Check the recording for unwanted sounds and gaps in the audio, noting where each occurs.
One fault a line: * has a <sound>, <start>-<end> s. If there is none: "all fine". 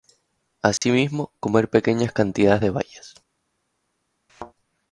* has a dropout, 0.8-0.8 s
* has a thud, 4.3-4.5 s